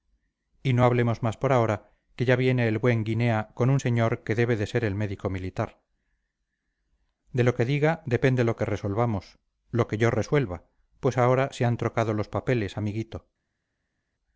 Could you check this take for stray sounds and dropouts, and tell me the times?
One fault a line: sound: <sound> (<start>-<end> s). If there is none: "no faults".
no faults